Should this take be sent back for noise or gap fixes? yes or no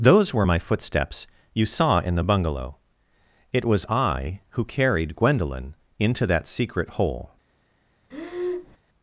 yes